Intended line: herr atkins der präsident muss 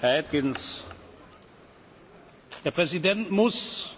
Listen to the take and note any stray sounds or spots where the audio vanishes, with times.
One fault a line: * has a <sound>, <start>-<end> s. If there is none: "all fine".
all fine